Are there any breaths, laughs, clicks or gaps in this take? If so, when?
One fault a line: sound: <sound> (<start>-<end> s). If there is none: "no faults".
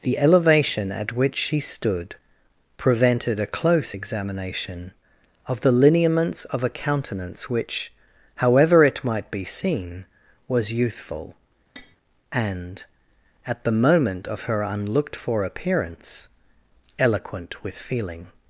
sound: tap (11.8-12.0 s)